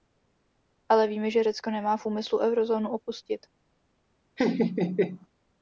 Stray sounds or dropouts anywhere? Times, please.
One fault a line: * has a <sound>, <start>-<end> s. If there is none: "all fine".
* has a laugh, 4.4-5.3 s